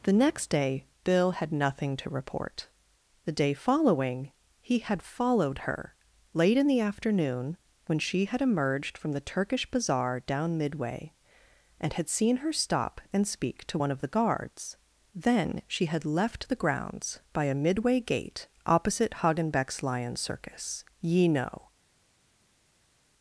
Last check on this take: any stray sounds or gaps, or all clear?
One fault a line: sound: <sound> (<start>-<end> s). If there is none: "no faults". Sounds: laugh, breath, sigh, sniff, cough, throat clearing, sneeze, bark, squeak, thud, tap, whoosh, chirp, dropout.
no faults